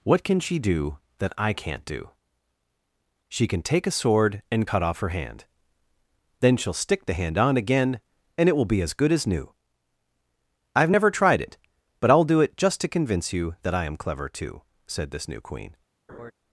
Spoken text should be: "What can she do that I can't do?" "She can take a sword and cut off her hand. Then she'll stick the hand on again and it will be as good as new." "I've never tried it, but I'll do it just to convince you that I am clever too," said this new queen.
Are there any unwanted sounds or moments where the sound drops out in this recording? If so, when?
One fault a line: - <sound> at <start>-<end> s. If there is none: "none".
- laugh at 16.1-16.3 s